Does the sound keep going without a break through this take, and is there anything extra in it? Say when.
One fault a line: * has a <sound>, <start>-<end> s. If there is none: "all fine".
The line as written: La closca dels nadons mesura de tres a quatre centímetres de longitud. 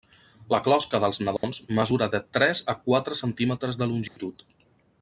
* has a dropout, 1.4-1.4 s
* has a dropout, 4.1-4.2 s